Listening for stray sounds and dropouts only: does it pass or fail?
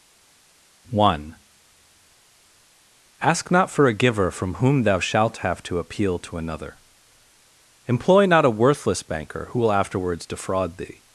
pass